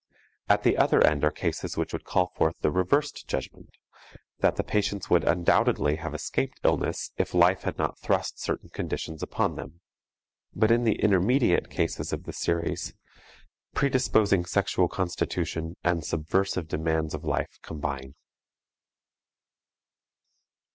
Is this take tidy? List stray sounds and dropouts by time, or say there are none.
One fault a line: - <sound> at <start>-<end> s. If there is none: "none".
none